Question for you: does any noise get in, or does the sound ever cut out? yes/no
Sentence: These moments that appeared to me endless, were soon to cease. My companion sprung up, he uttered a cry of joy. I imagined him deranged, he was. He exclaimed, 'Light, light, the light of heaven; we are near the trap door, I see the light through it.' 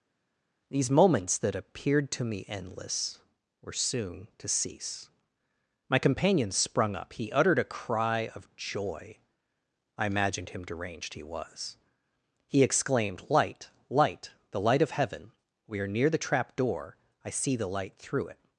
no